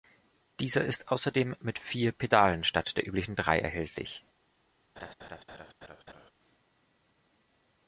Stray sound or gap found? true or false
true